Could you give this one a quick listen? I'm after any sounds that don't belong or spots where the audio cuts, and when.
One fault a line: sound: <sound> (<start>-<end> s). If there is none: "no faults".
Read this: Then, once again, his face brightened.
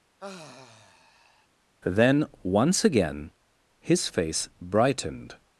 sound: sigh (0.2-1.5 s)